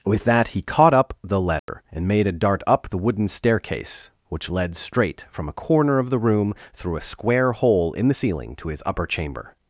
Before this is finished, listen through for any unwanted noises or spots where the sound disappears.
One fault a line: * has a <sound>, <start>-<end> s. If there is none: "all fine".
* has a dropout, 1.6-1.7 s